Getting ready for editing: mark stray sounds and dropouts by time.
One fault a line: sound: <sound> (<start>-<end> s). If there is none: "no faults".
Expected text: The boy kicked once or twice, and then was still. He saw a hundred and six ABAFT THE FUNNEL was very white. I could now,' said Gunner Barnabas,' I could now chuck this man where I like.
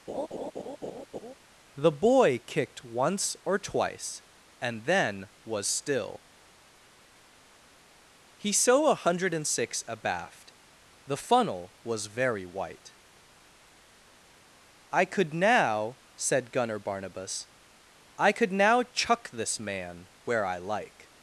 sound: laugh (0.1-1.3 s)